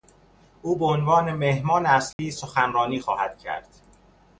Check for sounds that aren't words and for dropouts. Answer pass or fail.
fail